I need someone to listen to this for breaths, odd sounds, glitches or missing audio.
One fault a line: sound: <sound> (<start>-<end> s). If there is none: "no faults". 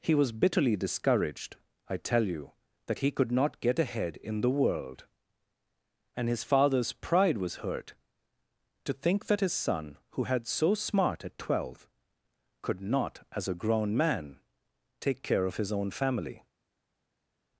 no faults